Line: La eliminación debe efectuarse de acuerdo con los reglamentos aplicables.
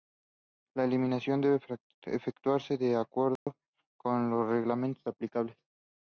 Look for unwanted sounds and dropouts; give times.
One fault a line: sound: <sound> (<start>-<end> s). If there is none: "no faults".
sound: dropout (3.4-3.5 s)